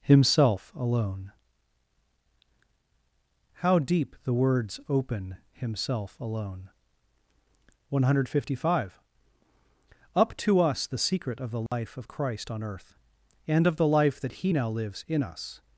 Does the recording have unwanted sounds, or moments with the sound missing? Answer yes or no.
yes